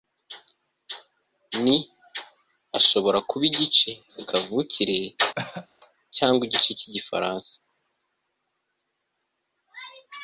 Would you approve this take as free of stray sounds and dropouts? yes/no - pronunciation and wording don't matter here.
no